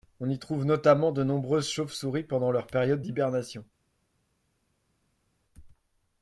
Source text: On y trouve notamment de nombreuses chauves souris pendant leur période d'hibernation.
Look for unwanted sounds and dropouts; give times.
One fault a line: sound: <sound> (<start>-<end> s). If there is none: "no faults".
no faults